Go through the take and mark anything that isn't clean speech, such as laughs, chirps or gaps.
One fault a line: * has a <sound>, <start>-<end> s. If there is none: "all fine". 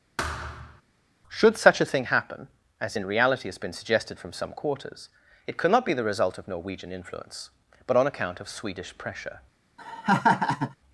* has a thud, 0.2-0.8 s
* has a laugh, 9.8-10.8 s